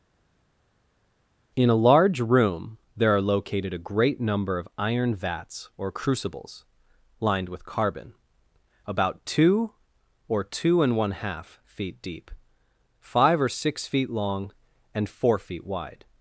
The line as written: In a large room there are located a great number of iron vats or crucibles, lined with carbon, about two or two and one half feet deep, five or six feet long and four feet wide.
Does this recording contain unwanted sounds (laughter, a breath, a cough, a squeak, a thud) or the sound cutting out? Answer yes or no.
no